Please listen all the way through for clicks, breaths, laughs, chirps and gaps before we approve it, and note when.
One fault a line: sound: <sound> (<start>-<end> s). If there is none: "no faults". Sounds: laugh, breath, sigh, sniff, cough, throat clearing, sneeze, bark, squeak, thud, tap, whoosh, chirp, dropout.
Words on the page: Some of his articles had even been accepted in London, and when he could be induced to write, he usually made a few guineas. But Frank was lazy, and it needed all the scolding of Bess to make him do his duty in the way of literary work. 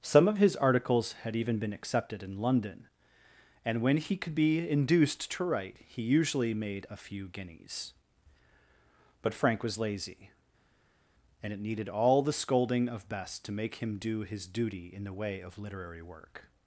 no faults